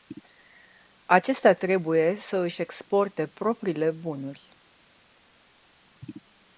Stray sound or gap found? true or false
false